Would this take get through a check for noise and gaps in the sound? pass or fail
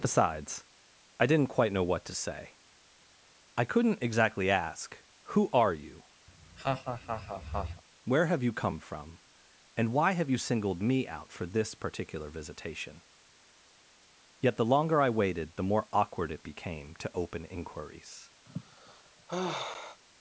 fail